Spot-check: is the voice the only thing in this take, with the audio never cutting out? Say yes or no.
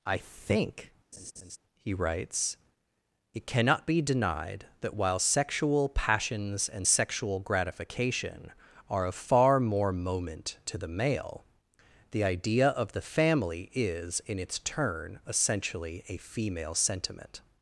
no